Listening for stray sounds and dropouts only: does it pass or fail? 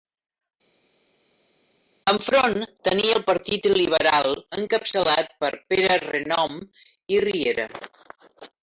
pass